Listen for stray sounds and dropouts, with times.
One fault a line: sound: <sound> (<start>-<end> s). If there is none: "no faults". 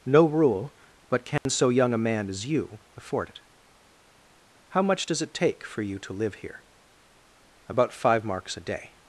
sound: dropout (1.4-1.5 s)